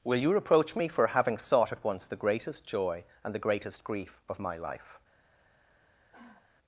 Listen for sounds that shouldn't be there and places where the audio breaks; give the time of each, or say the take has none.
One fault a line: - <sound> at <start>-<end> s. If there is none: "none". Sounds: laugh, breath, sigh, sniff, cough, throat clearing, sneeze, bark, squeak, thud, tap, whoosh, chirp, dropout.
- sigh at 6.1-6.5 s